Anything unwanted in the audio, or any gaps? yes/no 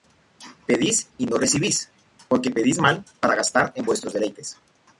no